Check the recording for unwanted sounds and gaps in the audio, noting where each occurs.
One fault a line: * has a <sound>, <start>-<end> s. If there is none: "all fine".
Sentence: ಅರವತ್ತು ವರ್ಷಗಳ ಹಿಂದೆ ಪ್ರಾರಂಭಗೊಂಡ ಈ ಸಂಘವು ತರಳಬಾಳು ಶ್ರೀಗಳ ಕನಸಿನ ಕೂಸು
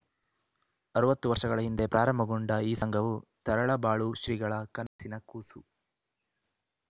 * has a dropout, 4.9-5.0 s